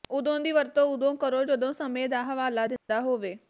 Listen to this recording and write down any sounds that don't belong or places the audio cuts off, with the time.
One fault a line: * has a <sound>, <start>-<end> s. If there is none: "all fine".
* has a dropout, 2.8-2.9 s